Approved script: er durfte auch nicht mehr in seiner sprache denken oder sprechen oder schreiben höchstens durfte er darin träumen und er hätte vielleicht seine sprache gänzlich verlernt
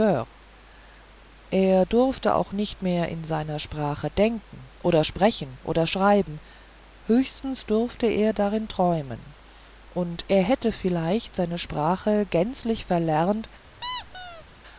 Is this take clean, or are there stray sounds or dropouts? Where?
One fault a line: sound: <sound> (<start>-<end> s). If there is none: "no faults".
sound: squeak (13.8-14.4 s)